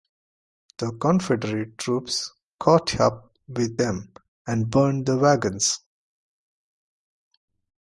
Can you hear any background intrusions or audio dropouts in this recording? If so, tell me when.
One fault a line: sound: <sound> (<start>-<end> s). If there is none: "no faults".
no faults